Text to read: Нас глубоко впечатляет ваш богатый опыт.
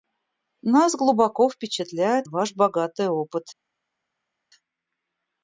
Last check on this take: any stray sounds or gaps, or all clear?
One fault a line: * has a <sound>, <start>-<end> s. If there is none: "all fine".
all fine